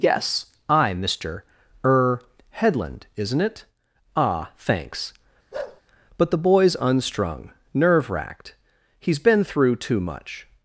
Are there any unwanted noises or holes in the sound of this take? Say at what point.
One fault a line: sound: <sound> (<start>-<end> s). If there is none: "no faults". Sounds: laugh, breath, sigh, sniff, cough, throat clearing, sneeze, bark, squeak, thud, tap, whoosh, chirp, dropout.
sound: bark (5.5-5.8 s)